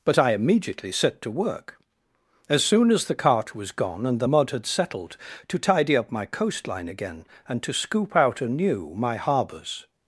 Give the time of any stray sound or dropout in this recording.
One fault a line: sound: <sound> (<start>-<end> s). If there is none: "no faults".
no faults